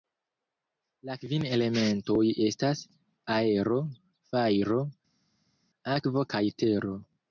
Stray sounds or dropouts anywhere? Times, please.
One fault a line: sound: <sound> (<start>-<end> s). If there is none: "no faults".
no faults